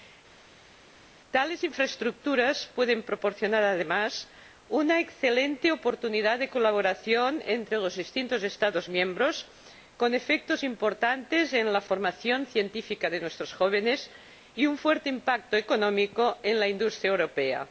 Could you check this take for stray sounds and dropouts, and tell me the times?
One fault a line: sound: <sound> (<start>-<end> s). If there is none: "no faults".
no faults